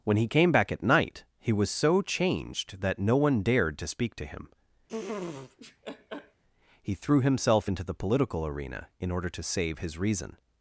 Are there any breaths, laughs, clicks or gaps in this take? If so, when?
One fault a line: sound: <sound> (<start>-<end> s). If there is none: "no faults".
sound: laugh (4.9-6.4 s)